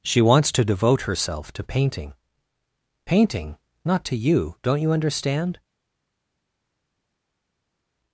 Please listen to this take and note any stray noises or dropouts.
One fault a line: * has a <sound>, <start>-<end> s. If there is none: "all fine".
all fine